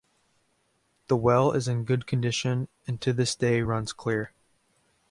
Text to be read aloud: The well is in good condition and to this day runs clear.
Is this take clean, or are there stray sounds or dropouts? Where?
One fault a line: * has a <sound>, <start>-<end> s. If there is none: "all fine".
all fine